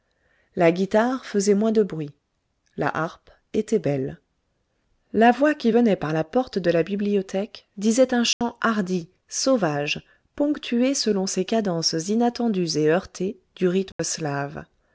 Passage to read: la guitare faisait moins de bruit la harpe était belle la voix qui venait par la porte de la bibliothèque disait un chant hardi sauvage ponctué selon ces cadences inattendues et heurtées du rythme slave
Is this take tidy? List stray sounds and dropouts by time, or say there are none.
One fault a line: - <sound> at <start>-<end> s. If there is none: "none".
- dropout at 8.3-8.4 s
- dropout at 13.9-14.0 s